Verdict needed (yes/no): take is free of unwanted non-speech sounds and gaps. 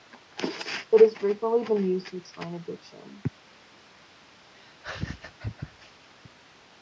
no